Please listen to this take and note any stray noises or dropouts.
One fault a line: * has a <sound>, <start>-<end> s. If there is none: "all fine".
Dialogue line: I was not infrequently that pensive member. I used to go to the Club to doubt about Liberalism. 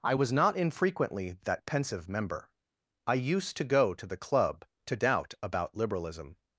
all fine